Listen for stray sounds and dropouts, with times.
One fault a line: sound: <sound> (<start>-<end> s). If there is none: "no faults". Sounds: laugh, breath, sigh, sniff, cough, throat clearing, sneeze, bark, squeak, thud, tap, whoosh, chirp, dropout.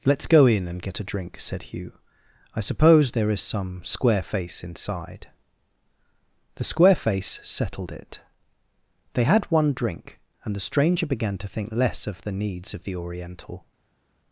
no faults